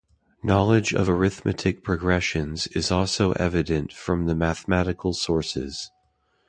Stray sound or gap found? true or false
false